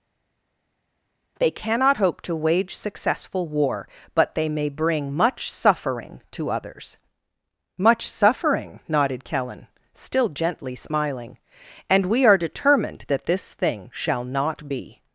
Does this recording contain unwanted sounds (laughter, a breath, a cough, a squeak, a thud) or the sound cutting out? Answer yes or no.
no